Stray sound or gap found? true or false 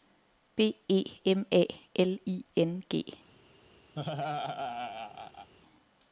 true